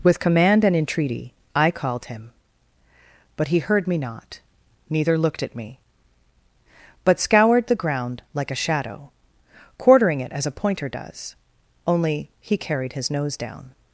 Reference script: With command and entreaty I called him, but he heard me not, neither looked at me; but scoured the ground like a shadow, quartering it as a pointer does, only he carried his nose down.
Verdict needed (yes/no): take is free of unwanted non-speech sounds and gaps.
yes